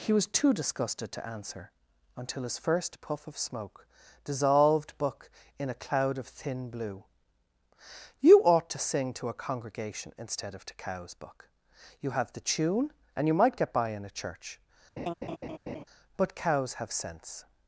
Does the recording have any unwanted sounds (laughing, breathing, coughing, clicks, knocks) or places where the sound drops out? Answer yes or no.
yes